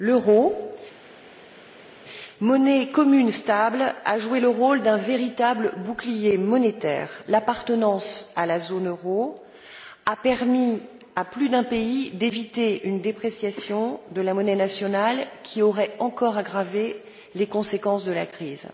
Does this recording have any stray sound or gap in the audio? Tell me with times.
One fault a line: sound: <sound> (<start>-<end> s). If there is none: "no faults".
no faults